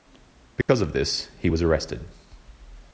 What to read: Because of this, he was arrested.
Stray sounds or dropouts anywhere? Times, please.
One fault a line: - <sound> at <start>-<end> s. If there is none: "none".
- dropout at 0.6-0.7 s